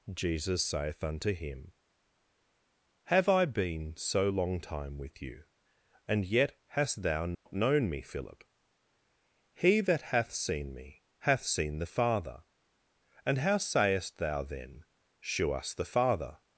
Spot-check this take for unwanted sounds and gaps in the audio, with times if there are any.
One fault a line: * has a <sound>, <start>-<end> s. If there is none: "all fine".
* has a dropout, 7.3-7.5 s